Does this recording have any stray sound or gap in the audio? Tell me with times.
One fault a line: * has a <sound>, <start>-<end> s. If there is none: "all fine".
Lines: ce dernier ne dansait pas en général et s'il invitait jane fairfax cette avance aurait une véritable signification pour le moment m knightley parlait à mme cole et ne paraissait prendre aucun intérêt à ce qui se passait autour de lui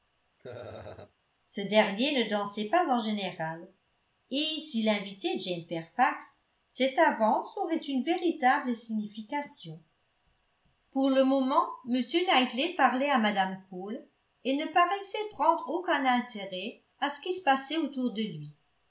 * has a laugh, 0.4-1.1 s